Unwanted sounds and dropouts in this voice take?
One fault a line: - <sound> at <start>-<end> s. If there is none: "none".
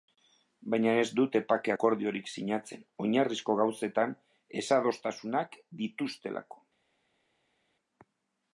none